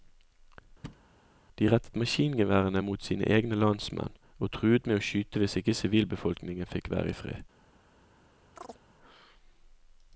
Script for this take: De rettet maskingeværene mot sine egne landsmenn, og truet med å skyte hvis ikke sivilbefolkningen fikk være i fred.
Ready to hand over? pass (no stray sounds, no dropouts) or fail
fail